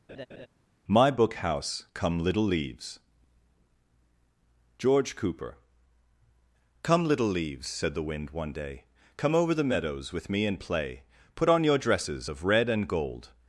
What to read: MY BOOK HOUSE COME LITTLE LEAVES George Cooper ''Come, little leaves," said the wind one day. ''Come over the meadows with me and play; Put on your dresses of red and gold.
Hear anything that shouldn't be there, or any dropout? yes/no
yes